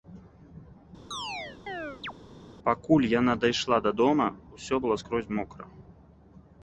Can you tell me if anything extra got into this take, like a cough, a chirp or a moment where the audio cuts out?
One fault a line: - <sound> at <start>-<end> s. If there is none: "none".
- chirp at 1.1-2.1 s